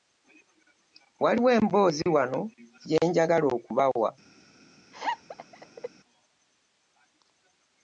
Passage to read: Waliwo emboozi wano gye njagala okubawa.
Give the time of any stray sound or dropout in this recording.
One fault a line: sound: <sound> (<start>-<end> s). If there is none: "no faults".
sound: laugh (4.9-5.9 s)